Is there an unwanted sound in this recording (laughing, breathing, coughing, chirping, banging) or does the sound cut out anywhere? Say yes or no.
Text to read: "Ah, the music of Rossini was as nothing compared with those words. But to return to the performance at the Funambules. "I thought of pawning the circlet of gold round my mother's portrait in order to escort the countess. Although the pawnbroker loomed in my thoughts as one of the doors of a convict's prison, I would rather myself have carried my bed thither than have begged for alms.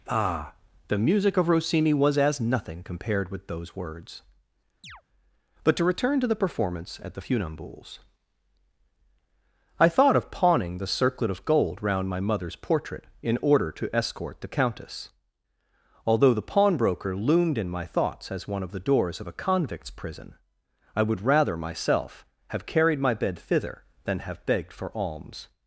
yes